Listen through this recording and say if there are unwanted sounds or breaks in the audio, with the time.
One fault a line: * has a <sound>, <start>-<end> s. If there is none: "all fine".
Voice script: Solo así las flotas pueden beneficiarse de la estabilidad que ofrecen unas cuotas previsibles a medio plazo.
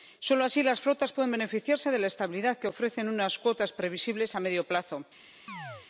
* has a chirp, 5.5-5.9 s